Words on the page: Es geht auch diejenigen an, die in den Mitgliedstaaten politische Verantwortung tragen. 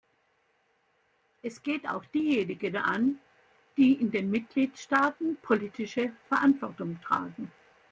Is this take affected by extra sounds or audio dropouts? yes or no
no